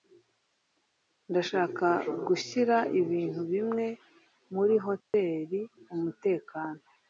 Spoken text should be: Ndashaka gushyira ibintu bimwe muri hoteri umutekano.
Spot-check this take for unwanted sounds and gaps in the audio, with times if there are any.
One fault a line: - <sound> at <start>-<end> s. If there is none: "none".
- dropout at 5.0-5.1 s